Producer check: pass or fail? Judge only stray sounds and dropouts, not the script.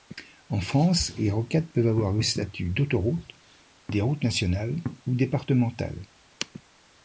pass